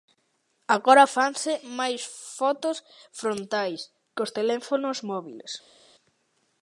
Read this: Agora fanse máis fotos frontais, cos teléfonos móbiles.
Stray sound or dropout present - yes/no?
no